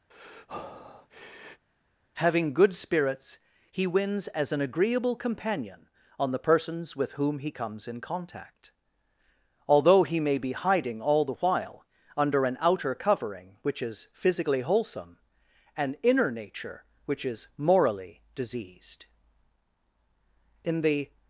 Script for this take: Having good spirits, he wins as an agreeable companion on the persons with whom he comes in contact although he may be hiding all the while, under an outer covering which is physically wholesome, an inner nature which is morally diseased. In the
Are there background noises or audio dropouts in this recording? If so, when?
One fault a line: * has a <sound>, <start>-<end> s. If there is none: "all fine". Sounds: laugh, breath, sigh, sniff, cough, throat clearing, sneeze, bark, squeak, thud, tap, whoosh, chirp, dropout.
* has a breath, 0.1-1.7 s